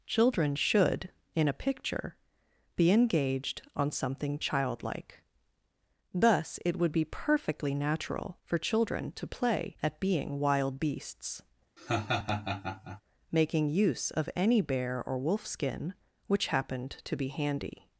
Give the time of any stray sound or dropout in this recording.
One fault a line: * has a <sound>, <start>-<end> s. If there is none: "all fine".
* has a laugh, 11.8-13.0 s